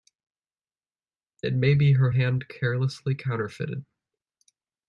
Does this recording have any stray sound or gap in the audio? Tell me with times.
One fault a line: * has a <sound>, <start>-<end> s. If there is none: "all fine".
all fine